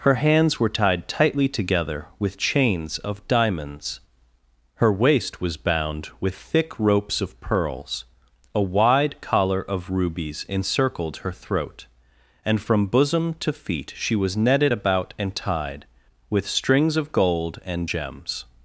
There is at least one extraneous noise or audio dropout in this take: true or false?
false